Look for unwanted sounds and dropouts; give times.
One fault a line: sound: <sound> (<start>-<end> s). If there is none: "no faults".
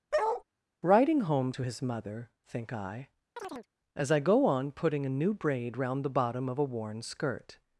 sound: bark (0.1-0.4 s)
sound: chirp (3.4-3.7 s)